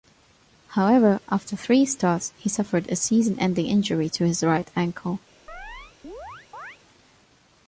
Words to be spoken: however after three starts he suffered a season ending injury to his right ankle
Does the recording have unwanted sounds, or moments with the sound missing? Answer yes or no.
yes